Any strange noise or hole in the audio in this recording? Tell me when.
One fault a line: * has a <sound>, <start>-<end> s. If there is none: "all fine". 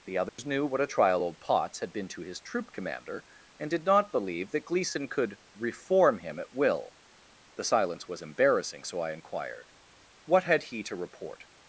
* has a dropout, 0.3-0.4 s